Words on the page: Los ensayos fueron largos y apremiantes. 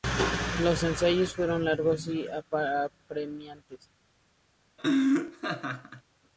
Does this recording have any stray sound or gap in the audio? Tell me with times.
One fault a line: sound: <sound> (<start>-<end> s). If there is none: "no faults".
sound: laugh (4.8-6.0 s)